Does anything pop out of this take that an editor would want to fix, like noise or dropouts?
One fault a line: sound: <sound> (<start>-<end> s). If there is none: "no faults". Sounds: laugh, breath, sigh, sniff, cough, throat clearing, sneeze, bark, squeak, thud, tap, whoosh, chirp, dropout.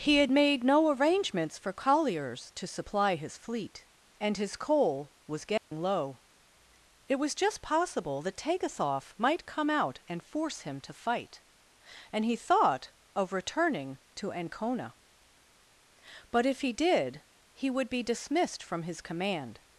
sound: dropout (5.6-5.7 s)